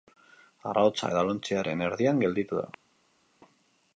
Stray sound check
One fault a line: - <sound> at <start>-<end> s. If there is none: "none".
none